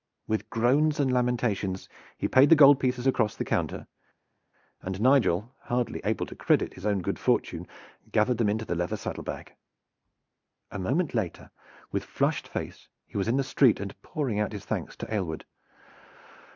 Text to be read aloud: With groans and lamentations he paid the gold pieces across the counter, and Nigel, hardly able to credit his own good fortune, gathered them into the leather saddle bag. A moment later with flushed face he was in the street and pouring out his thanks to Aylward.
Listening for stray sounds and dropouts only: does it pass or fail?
pass